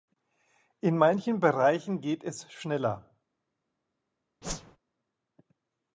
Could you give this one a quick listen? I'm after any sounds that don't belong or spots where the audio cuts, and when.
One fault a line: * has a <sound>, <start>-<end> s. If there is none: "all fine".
* has a whoosh, 4.4-4.8 s